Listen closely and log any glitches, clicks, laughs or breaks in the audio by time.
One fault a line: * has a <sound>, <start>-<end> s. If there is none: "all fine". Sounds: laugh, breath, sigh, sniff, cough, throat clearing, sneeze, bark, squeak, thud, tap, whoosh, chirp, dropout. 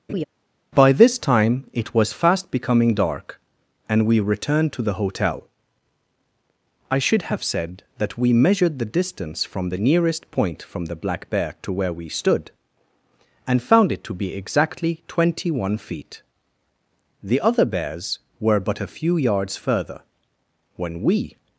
* has a laugh, 0.1-0.2 s